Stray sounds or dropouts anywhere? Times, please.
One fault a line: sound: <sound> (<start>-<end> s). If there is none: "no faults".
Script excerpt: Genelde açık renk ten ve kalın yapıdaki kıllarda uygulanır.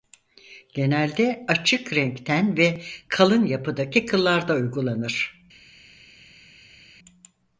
no faults